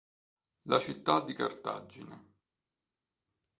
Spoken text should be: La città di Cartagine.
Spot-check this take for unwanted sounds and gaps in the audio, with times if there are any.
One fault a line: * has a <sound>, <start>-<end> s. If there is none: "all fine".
all fine